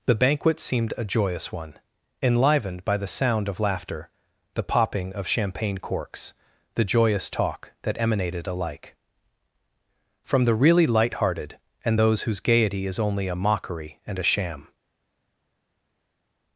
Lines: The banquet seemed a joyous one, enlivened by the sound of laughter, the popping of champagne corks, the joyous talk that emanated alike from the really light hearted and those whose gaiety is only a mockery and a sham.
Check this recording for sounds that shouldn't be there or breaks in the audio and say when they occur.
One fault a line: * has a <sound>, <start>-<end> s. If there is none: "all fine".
all fine